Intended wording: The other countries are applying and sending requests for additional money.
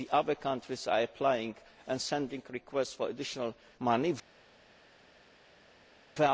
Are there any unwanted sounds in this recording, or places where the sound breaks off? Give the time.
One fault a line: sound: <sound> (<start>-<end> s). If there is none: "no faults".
no faults